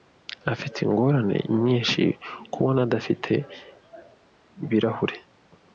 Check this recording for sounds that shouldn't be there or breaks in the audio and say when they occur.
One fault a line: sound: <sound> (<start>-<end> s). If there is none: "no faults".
no faults